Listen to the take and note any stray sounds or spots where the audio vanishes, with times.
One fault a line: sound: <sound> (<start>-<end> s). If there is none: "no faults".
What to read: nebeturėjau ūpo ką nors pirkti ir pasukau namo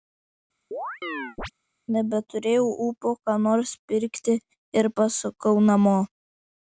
sound: chirp (0.7-1.5 s)